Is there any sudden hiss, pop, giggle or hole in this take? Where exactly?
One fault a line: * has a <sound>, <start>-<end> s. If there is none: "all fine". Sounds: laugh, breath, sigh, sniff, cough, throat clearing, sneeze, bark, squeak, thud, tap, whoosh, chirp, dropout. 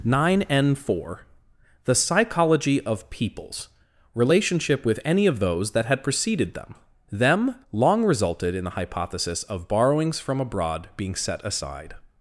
all fine